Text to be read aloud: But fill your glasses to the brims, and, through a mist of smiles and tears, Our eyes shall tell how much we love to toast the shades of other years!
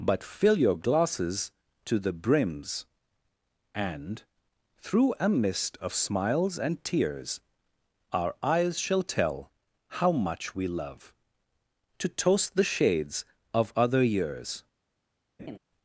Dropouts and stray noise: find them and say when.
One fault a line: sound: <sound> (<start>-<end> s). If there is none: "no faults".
sound: laugh (15.4-15.6 s)